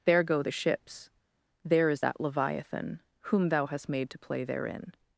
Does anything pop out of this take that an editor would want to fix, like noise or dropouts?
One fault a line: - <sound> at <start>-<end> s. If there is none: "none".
none